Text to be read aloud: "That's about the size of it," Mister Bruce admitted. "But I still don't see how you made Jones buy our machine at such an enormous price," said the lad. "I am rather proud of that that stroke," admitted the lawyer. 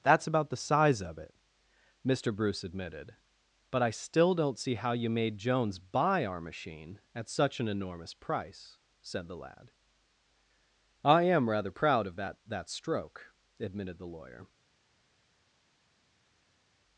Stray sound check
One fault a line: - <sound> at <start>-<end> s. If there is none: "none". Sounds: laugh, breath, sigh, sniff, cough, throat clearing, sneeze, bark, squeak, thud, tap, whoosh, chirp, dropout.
none